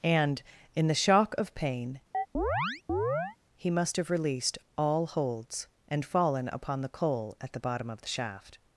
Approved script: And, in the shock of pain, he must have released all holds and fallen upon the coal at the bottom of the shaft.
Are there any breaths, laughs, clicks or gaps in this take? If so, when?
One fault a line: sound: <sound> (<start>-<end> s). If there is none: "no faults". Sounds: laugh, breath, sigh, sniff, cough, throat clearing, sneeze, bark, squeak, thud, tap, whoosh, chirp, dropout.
sound: chirp (2.1-3.4 s)